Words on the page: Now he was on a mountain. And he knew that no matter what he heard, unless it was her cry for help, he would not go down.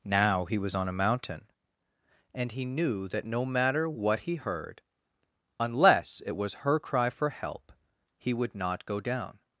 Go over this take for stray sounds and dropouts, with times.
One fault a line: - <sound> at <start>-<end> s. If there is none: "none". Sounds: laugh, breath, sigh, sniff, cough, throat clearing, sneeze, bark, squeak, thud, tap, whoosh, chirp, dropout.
none